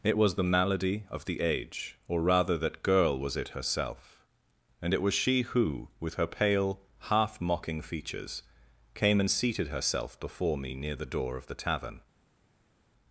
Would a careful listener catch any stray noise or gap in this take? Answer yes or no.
no